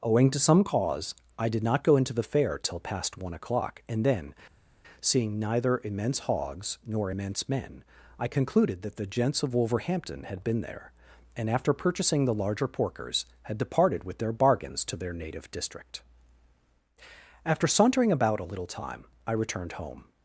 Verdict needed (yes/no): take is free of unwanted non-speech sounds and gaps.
yes